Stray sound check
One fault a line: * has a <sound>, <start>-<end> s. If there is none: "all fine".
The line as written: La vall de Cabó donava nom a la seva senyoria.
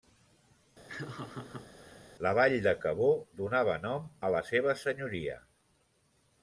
* has a laugh, 0.9-2.1 s